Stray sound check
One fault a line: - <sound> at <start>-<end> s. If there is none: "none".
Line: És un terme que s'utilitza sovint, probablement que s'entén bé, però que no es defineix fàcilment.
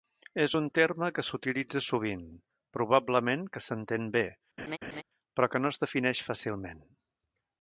- laugh at 4.6-5.0 s